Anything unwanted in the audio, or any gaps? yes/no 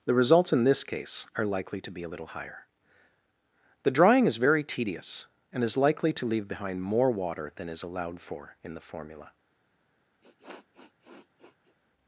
yes